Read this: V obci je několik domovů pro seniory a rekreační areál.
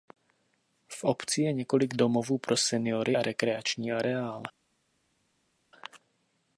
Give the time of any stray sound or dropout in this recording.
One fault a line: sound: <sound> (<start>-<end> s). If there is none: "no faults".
no faults